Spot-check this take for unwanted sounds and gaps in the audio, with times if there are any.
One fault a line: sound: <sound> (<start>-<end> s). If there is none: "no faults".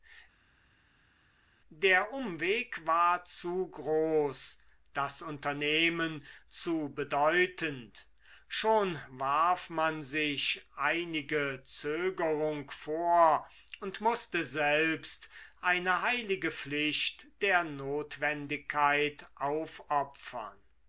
no faults